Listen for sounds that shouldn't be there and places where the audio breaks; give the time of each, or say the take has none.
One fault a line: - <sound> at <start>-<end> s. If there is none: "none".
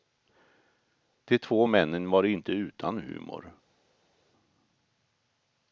none